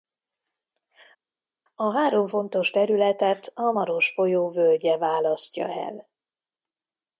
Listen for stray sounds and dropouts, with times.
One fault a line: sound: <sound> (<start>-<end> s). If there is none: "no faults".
no faults